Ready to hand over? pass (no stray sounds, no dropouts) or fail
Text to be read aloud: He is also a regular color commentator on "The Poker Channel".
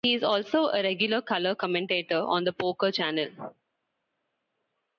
pass